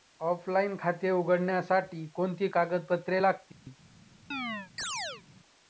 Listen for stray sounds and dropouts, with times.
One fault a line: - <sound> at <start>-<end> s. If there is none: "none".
- dropout at 3.5-3.7 s
- chirp at 4.3-5.2 s